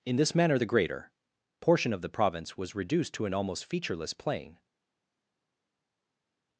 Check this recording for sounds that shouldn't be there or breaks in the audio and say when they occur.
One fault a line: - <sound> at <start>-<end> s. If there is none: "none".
none